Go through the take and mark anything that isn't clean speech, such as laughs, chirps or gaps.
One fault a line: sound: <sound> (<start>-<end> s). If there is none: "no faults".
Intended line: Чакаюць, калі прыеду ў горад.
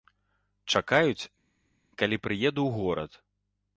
no faults